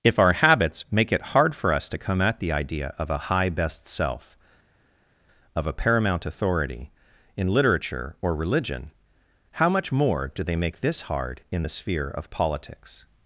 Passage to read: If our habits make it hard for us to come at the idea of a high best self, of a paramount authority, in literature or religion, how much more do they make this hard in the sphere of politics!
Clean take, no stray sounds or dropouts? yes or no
yes